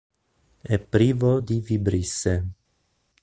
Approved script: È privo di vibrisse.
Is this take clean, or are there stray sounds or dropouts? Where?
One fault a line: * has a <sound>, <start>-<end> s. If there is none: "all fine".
all fine